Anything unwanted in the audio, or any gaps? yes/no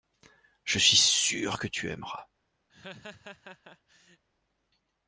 yes